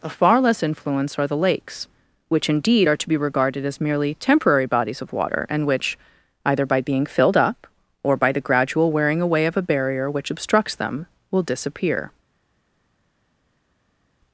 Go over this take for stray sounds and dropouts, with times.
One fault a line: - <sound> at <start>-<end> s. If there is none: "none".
none